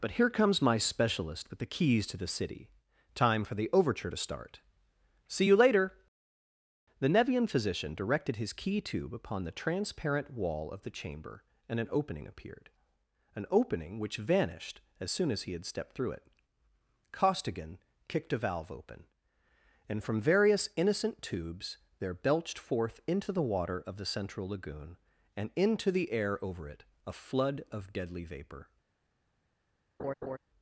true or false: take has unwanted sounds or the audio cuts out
true